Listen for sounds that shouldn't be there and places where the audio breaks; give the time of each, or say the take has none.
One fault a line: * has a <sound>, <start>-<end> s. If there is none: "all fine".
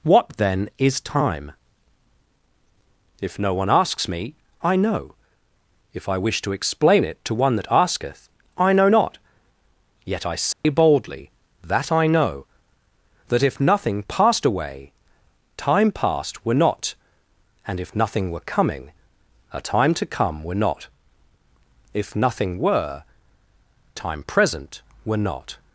* has a dropout, 10.5-10.6 s